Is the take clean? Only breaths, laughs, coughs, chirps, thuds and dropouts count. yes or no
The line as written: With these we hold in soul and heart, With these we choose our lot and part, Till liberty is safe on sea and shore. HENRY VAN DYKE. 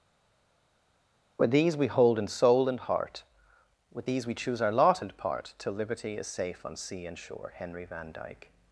yes